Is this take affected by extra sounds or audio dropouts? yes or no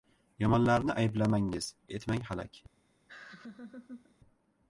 yes